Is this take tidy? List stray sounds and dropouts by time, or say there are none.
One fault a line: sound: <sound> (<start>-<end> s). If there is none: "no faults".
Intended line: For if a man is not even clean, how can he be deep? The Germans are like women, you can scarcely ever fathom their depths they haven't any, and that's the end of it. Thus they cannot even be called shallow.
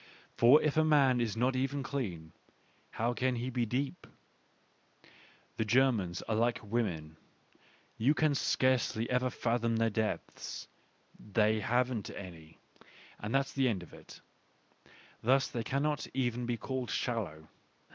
no faults